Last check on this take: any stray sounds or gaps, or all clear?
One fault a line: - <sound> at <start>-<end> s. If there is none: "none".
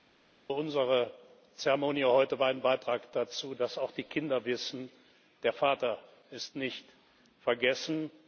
none